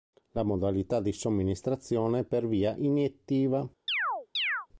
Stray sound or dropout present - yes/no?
yes